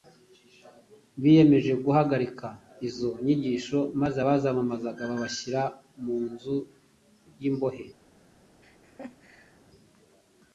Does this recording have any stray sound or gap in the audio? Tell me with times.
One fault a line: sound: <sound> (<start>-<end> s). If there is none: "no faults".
sound: laugh (8.6-9.6 s)